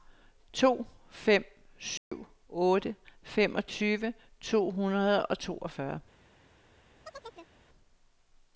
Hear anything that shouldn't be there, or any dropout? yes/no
yes